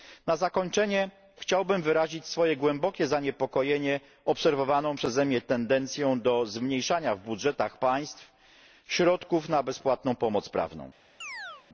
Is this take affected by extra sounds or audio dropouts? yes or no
yes